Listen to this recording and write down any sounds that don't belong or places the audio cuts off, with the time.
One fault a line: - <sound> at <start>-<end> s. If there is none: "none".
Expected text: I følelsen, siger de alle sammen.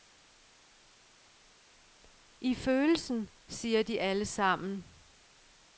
none